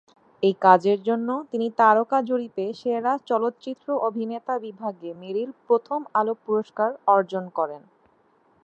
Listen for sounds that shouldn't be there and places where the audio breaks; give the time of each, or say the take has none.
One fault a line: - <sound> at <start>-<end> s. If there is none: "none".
none